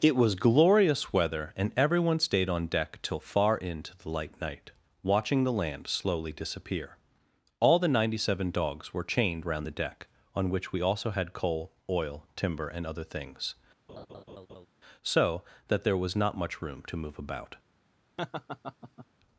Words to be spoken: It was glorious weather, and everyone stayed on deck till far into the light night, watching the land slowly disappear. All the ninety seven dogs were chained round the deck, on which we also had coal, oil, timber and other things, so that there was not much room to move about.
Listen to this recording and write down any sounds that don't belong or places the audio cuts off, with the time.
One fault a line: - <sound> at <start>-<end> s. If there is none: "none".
- laugh at 13.9-14.7 s
- laugh at 18.2-19.1 s